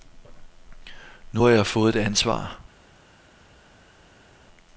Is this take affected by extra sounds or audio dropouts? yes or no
no